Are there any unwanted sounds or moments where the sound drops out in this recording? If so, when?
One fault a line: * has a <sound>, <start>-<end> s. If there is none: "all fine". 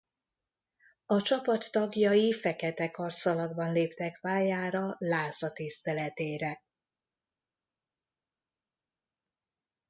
all fine